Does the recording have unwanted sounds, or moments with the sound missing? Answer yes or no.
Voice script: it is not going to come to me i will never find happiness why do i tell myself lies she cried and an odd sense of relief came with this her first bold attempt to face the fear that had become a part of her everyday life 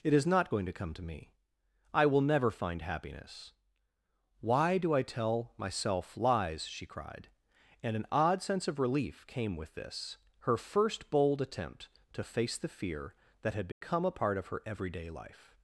yes